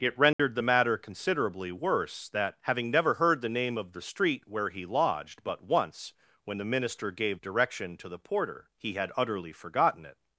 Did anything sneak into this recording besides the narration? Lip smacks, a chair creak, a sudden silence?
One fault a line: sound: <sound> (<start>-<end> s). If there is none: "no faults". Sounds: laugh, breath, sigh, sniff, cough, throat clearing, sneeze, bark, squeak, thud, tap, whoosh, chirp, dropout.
sound: dropout (0.3-0.4 s)